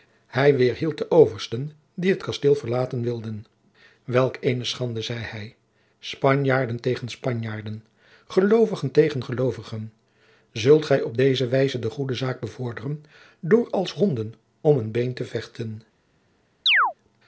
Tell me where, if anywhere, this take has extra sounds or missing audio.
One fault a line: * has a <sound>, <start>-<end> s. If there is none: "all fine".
* has a chirp, 16.7-16.9 s